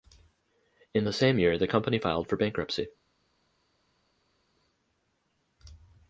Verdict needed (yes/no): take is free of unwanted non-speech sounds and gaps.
yes